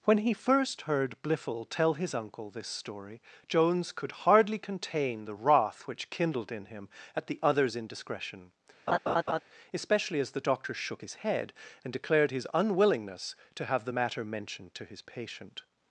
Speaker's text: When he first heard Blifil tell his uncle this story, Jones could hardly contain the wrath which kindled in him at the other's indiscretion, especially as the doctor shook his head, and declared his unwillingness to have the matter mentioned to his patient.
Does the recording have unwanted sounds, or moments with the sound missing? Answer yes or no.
yes